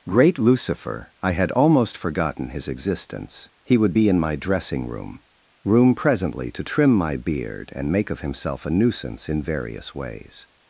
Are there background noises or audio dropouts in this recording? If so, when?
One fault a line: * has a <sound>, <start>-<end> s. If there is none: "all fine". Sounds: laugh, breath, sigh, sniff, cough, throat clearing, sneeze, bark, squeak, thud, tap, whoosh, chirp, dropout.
all fine